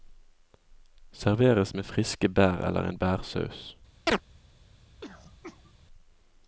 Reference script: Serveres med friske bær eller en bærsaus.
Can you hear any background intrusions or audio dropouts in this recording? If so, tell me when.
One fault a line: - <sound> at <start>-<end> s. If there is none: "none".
- chirp at 4.1-4.2 s
- throat clearing at 5.0-5.7 s